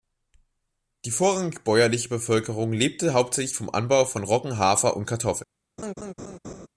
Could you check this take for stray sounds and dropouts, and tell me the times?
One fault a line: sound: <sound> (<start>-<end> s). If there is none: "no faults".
sound: laugh (5.8-6.7 s)